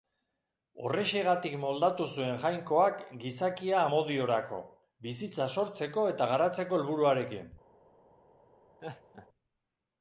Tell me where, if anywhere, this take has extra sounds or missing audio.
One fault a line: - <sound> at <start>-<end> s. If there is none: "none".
- laugh at 8.8-9.3 s